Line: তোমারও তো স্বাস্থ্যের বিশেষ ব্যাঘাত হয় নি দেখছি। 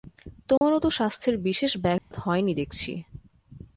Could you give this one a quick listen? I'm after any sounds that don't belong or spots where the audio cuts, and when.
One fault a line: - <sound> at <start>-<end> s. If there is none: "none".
- dropout at 0.6-0.6 s
- dropout at 2.0-2.1 s